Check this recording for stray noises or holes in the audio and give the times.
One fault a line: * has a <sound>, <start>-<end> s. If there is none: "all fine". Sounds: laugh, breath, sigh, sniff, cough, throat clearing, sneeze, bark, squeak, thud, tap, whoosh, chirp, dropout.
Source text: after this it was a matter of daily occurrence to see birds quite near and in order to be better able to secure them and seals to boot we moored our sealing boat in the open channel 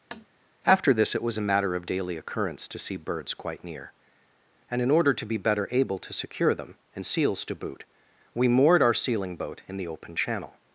* has a tap, 0.1-0.3 s